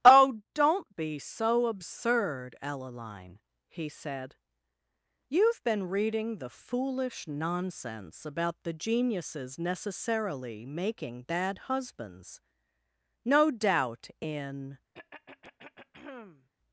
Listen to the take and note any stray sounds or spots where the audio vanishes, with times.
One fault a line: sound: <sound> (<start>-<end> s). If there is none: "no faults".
sound: throat clearing (14.9-16.5 s)